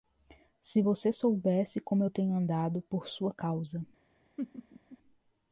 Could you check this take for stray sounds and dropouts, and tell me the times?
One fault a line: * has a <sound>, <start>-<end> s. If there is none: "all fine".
* has a laugh, 4.4-5.0 s